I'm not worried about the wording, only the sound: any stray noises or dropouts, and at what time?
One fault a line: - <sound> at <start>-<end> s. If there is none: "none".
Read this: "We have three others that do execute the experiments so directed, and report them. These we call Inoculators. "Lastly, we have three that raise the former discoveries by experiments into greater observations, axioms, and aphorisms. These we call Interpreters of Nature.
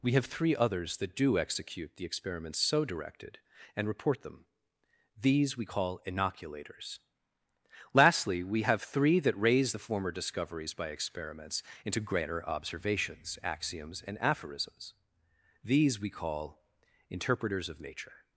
none